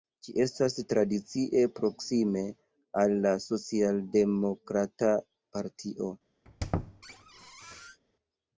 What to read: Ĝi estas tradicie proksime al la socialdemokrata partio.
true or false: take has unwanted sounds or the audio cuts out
true